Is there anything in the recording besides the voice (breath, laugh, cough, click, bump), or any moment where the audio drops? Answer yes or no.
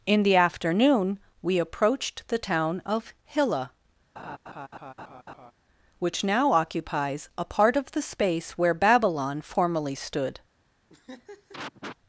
yes